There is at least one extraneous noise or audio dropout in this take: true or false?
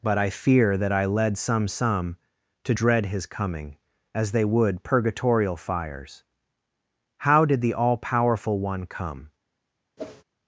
true